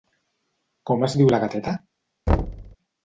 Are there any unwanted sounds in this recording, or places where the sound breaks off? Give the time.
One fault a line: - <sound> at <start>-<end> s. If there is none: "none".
- thud at 2.3-2.8 s